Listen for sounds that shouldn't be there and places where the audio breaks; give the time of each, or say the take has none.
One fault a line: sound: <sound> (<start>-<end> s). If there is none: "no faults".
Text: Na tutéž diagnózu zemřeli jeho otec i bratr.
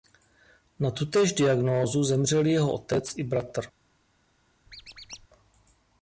sound: squeak (4.7-5.3 s)